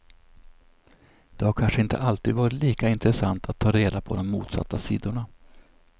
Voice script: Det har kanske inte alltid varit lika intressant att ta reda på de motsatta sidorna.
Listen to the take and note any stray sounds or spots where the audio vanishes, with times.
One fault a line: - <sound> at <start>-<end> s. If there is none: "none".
none